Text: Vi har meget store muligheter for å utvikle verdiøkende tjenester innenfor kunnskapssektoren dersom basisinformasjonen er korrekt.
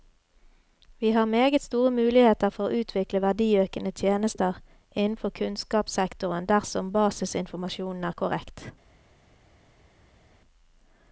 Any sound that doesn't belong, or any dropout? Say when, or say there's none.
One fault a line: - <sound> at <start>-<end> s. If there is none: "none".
none